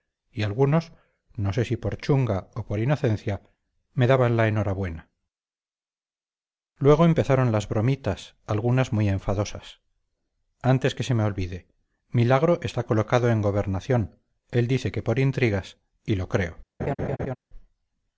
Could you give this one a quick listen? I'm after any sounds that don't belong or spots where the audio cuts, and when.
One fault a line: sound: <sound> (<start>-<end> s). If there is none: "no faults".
sound: laugh (16.8-17.4 s)